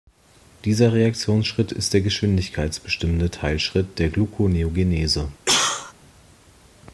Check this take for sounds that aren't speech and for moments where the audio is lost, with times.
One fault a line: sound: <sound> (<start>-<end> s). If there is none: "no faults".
sound: cough (5.5-5.9 s)